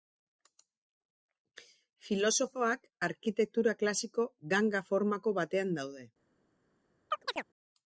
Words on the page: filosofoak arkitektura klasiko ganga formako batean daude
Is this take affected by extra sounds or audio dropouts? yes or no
yes